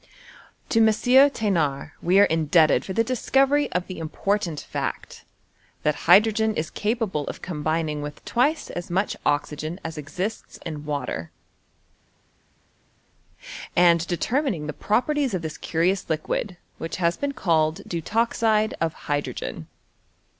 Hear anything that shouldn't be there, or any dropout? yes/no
no